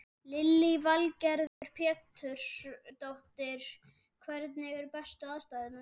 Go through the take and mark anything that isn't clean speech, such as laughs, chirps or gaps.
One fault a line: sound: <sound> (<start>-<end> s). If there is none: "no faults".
sound: dropout (1.5-1.6 s)